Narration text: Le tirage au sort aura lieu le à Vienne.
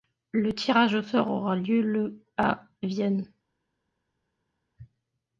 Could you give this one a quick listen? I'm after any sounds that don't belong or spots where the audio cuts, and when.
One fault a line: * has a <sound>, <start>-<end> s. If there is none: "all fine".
all fine